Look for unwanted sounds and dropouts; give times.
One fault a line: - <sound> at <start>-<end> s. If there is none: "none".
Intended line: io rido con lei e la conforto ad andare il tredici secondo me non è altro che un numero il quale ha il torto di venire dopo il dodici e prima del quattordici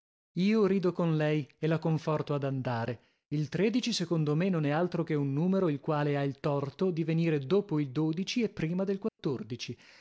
- dropout at 9.1-9.2 s